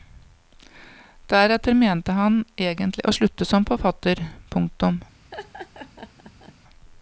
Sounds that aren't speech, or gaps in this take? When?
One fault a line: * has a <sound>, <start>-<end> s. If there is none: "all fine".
* has a laugh, 5.3-6.5 s